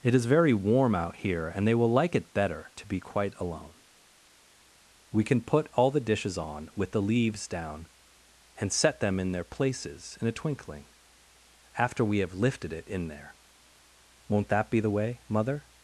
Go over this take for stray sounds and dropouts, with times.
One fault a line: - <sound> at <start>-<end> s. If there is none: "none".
none